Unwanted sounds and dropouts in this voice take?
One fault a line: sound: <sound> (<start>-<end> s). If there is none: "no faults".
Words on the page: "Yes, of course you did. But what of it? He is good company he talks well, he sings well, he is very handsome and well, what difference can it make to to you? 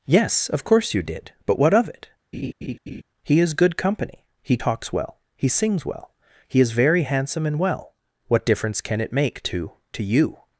sound: laugh (2.3-3.0 s)